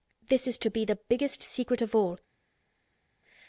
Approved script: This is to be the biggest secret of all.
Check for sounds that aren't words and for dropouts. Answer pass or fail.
pass